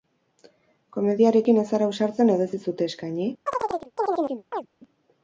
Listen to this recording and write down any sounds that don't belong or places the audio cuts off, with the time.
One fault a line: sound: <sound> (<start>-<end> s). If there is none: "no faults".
sound: chirp (3.5-4.7 s)